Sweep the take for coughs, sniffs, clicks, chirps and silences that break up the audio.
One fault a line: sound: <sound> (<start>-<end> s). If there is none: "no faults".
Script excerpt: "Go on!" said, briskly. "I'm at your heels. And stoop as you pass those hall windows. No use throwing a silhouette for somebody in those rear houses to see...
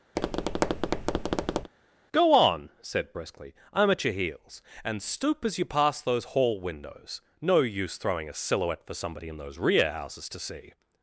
sound: tap (0.2-1.7 s)